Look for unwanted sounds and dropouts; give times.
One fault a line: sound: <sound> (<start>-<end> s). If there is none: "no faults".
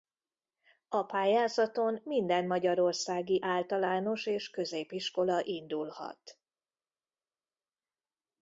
no faults